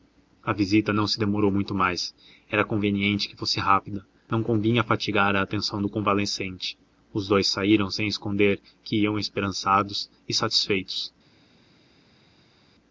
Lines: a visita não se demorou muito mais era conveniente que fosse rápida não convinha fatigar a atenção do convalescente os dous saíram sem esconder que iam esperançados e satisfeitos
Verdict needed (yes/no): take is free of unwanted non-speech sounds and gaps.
yes